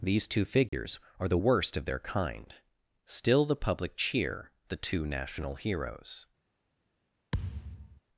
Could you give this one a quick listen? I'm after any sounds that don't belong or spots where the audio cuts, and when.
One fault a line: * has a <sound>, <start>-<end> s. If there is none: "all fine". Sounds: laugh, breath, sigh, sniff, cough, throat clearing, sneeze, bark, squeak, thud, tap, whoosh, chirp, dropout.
* has a dropout, 0.7-0.7 s
* has a thud, 7.3-8.0 s